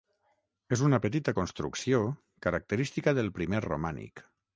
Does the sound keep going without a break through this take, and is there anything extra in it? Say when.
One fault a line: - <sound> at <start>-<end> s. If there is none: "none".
none